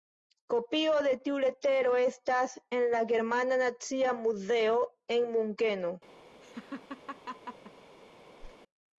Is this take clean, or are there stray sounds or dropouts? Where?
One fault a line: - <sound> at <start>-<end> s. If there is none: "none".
- laugh at 6.4-7.7 s
- whoosh at 8.4-8.6 s